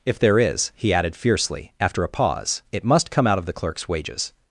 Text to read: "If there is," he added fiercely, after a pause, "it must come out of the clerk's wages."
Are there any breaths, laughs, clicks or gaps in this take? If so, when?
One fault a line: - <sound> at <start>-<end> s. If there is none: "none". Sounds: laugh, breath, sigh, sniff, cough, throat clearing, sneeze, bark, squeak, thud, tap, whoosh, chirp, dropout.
none